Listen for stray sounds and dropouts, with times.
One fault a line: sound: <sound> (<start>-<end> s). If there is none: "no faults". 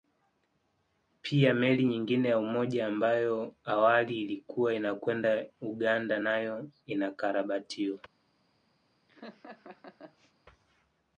sound: laugh (9.1-10.3 s)